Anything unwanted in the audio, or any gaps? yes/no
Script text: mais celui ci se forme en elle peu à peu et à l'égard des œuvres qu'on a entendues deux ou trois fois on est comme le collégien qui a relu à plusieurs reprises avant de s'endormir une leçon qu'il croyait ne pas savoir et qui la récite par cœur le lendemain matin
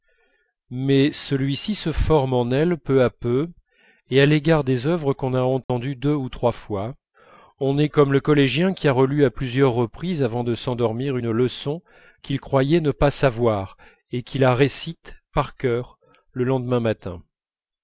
yes